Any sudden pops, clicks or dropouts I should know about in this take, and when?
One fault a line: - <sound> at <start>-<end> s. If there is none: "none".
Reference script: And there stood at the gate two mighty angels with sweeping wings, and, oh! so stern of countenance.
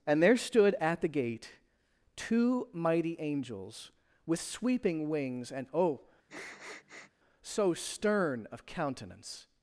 - sniff at 6.3-7.1 s